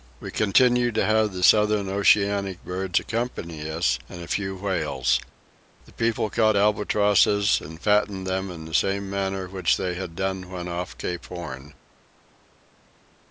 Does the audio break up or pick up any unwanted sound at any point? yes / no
no